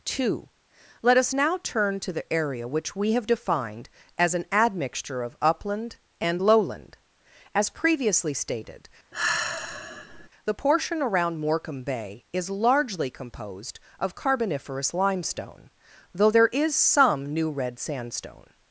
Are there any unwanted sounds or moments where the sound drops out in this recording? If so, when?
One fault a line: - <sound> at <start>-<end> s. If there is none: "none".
- sigh at 9.1-10.3 s